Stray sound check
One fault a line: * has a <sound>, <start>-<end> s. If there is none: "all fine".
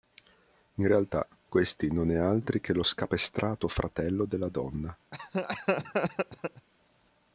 * has a laugh, 5.1-6.7 s